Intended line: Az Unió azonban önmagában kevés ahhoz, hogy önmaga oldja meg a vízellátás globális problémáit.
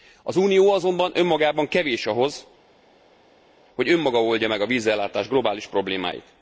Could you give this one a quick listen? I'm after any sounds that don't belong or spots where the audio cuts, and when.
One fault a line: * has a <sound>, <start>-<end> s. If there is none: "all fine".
all fine